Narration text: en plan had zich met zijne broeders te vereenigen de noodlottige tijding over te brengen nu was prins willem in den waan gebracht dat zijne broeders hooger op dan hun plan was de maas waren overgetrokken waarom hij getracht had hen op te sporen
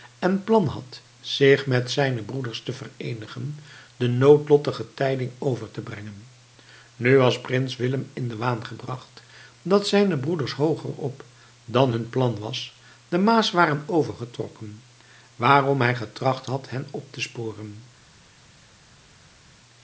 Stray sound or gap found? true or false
false